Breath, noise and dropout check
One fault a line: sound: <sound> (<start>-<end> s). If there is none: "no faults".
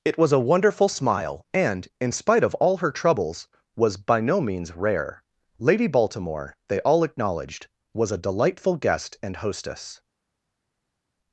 no faults